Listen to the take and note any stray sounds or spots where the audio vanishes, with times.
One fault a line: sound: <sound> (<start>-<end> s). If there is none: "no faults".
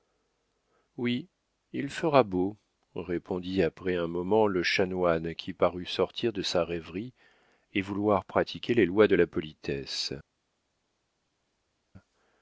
no faults